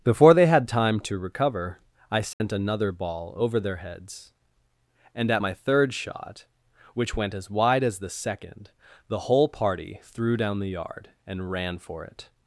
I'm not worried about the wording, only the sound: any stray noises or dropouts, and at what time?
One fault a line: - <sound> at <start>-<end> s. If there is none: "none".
- dropout at 2.3-2.4 s